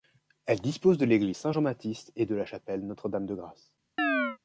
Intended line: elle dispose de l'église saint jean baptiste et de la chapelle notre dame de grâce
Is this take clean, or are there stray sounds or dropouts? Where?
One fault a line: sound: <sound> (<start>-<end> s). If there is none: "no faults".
sound: chirp (4.0-4.4 s)